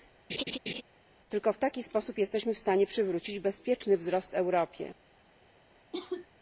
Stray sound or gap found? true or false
true